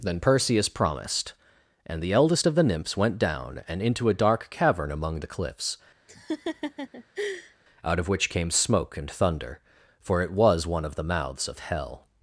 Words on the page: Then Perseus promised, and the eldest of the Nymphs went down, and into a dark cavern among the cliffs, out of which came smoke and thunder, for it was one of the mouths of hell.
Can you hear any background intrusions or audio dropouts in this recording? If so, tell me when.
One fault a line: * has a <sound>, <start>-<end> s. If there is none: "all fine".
* has a laugh, 6.1-7.6 s